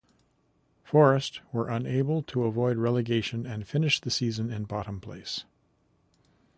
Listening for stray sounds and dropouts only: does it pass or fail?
pass